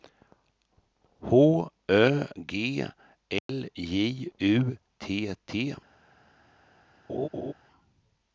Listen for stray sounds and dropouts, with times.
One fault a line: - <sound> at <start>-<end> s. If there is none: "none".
- dropout at 3.4-3.5 s
- laugh at 7.1-7.5 s